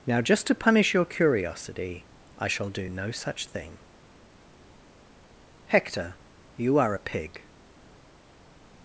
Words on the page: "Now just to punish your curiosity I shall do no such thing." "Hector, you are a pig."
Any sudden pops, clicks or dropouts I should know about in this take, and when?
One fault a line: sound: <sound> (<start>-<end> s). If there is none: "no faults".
no faults